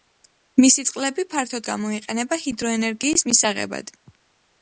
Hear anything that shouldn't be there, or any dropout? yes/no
no